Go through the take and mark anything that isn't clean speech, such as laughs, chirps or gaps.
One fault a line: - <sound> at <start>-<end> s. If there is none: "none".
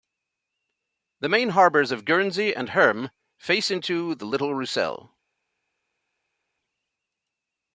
none